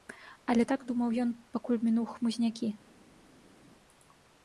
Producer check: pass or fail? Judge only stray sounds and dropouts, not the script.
pass